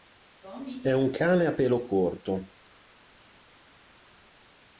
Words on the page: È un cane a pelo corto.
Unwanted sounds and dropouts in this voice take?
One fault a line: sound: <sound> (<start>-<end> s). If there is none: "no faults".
no faults